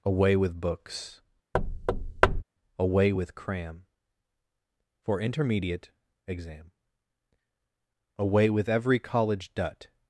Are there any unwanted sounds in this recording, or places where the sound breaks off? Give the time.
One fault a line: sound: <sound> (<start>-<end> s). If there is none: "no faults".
sound: thud (1.5-2.4 s)